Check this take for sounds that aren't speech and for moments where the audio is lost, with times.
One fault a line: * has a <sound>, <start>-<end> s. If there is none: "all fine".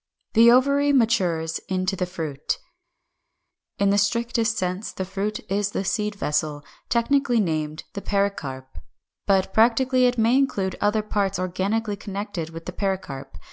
all fine